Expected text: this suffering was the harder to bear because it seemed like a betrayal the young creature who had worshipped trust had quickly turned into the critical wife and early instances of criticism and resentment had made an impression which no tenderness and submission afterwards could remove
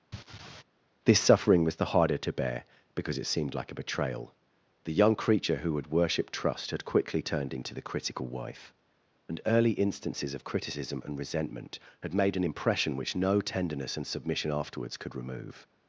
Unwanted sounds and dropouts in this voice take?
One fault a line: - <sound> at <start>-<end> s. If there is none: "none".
- laugh at 0.1-0.6 s